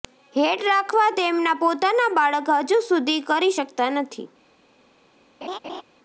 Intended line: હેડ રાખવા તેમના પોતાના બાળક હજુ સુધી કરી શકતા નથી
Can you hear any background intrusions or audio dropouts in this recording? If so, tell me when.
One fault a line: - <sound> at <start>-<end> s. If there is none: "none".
- laugh at 5.4-5.8 s